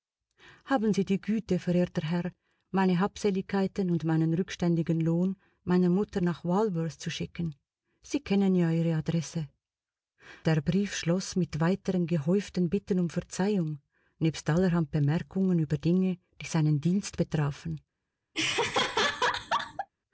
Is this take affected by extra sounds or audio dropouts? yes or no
yes